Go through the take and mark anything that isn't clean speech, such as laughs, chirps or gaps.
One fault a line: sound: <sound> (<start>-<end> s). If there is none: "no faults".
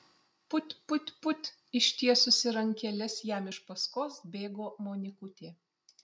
no faults